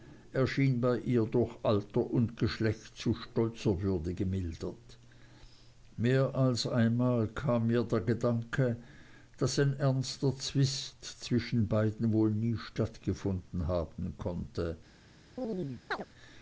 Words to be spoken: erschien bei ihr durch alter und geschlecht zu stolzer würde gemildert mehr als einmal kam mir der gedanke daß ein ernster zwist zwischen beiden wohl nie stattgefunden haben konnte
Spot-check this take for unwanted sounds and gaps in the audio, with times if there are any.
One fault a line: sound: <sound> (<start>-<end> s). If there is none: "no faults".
sound: chirp (15.4-16.1 s)